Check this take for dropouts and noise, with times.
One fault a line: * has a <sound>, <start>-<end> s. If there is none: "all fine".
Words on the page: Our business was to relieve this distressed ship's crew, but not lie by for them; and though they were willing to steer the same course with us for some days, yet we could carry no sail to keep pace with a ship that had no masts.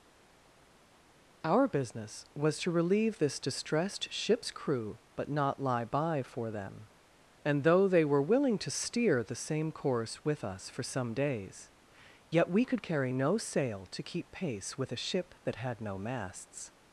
all fine